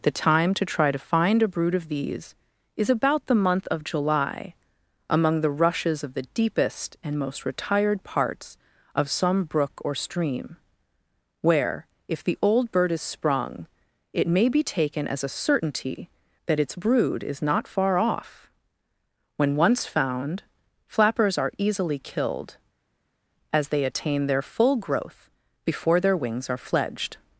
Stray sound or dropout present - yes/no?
no